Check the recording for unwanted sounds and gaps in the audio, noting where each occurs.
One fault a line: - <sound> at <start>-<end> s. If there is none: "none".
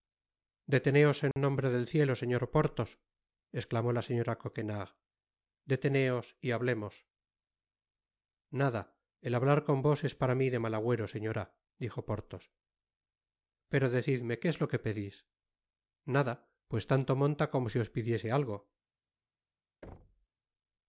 - dropout at 1.3-1.4 s
- thud at 19.8-20.3 s